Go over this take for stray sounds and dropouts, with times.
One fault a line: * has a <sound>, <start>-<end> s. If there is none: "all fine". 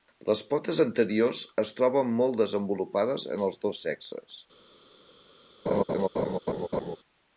* has a laugh, 5.7-7.0 s